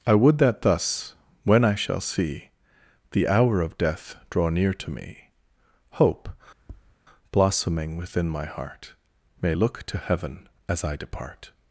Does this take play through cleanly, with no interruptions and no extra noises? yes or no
no